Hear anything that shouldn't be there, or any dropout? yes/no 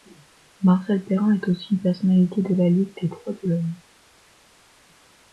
no